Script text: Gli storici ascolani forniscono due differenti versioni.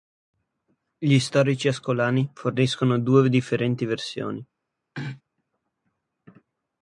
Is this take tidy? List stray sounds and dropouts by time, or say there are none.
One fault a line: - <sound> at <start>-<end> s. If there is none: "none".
- throat clearing at 4.9-5.2 s